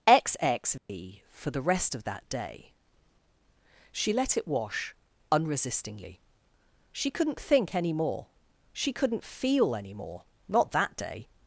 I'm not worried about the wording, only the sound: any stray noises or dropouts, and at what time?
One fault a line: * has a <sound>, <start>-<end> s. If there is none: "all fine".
* has a dropout, 0.8-0.9 s